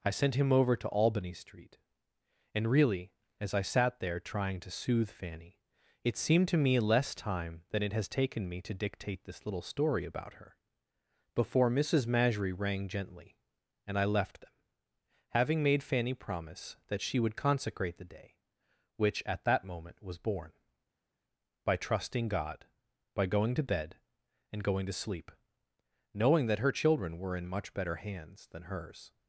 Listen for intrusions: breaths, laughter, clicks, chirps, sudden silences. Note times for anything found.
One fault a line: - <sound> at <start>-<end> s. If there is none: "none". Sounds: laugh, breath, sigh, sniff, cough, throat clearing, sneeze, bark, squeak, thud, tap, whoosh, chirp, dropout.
none